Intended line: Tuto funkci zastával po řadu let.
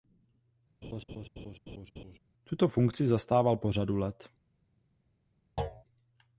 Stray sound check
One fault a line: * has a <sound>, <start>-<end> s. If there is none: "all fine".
* has a laugh, 0.8-2.2 s
* has a thud, 5.6-5.8 s